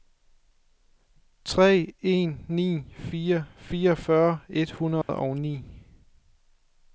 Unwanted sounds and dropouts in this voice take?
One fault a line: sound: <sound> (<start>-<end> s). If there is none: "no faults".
sound: dropout (5.0-5.1 s)